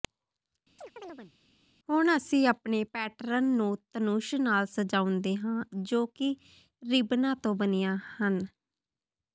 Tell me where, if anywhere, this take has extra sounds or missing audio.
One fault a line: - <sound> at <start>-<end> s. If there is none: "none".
- chirp at 0.8-1.3 s